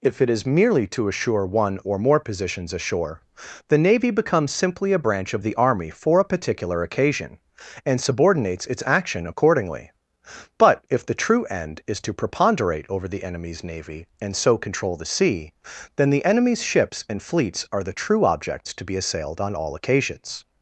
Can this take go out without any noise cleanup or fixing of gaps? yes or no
yes